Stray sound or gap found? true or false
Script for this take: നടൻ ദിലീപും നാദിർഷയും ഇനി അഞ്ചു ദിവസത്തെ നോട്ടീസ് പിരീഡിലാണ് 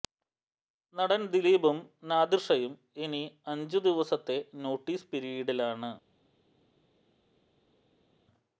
false